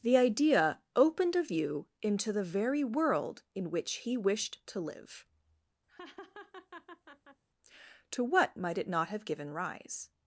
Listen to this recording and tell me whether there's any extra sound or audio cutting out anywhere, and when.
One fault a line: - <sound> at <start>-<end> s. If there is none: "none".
- laugh at 5.9-7.4 s